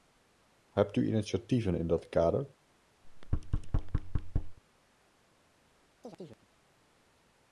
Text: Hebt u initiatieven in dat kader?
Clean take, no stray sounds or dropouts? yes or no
no